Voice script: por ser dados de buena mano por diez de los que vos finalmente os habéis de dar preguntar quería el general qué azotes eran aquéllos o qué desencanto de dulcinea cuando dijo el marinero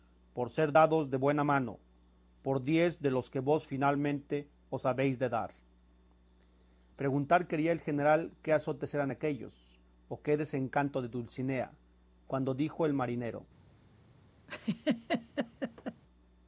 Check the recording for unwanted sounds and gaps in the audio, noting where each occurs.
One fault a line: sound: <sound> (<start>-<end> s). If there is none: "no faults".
sound: laugh (14.5-16.0 s)